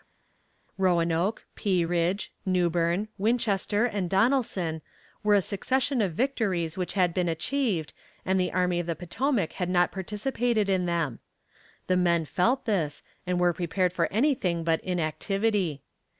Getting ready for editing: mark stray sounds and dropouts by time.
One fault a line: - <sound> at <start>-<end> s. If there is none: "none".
none